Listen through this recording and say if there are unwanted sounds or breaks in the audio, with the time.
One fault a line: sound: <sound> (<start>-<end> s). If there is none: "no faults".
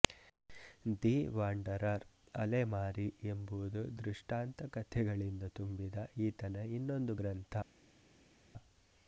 no faults